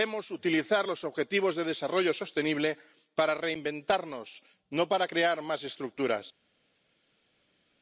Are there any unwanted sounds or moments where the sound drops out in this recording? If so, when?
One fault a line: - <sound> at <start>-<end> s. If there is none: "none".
none